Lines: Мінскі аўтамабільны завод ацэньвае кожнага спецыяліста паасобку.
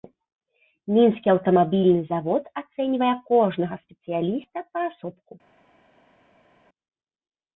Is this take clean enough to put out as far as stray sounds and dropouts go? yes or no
yes